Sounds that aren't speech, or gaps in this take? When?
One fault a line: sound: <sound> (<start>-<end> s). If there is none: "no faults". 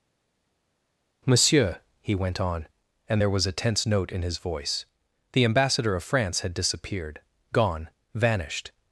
no faults